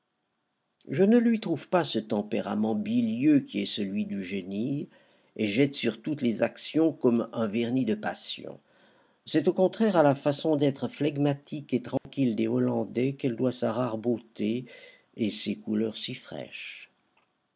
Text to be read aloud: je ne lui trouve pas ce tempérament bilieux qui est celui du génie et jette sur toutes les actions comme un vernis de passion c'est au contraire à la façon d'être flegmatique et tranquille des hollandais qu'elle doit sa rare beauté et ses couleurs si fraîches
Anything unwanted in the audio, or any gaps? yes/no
yes